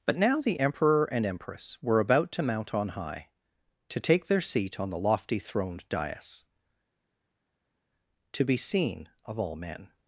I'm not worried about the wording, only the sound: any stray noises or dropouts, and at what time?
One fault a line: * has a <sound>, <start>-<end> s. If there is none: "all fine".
all fine